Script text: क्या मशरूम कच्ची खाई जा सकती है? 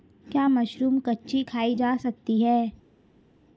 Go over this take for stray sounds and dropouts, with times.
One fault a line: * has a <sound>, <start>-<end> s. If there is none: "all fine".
all fine